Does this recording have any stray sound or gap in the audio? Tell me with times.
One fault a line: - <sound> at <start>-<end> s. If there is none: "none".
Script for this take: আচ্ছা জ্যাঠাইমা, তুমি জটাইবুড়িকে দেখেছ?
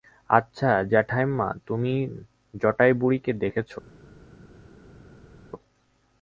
none